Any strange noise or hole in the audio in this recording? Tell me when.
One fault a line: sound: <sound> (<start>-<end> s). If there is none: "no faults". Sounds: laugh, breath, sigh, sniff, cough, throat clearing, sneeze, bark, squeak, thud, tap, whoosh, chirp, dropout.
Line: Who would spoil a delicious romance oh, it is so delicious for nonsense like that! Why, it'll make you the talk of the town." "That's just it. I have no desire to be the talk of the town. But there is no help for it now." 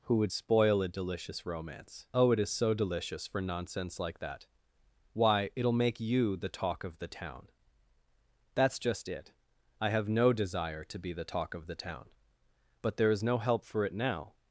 no faults